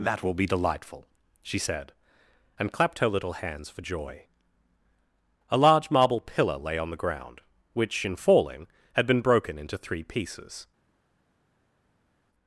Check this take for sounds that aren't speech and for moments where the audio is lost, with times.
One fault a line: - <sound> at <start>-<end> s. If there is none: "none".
none